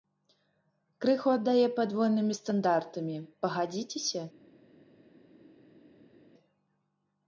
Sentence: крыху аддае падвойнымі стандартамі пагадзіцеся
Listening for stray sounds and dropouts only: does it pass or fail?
pass